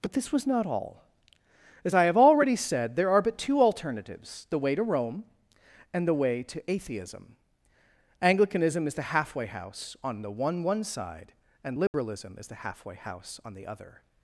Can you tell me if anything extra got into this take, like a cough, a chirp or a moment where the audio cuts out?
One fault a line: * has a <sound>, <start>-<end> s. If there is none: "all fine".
* has a dropout, 11.9-11.9 s